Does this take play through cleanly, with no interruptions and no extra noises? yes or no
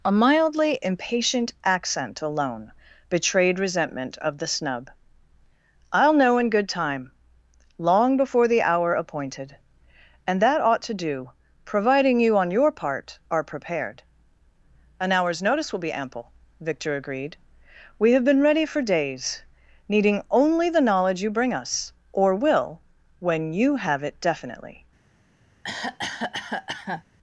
no